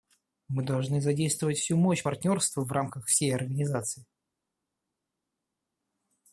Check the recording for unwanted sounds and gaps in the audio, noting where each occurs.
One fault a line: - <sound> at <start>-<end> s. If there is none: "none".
none